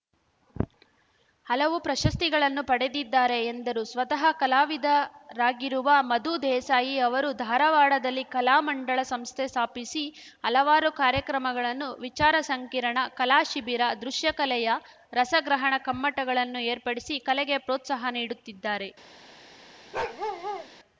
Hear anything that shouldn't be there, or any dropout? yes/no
yes